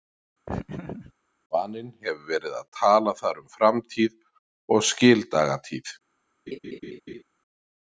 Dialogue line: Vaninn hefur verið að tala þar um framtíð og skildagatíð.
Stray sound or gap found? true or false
true